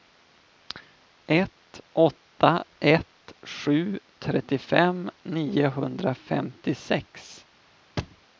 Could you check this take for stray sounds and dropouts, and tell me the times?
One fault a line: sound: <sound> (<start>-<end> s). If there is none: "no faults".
sound: thud (8.0-8.2 s)